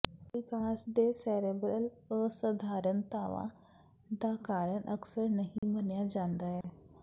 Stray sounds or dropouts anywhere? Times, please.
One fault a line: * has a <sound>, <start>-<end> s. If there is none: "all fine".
* has a dropout, 5.6-5.6 s
* has a dropout, 6.6-6.6 s